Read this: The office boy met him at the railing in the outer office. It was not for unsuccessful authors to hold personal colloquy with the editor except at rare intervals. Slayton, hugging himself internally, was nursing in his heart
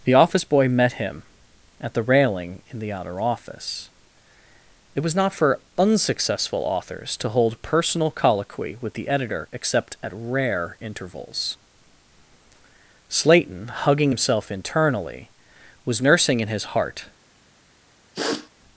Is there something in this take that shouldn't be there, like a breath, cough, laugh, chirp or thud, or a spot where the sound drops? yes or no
yes